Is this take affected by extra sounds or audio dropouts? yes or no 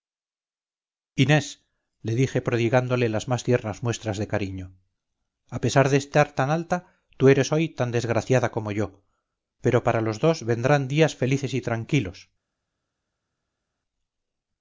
no